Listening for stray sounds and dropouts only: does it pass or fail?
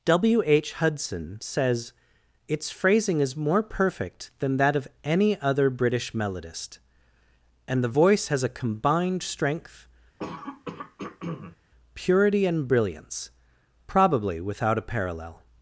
fail